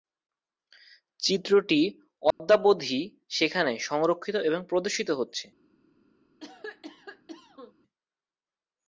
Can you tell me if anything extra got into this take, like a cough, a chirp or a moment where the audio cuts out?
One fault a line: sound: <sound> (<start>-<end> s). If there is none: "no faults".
sound: dropout (2.3-2.4 s)
sound: cough (6.4-7.7 s)